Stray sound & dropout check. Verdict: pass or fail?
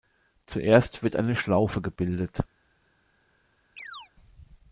fail